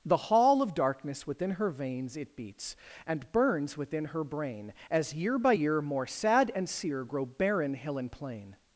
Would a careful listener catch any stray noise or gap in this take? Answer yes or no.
no